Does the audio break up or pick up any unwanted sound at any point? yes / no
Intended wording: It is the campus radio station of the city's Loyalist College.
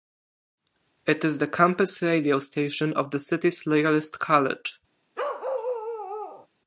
yes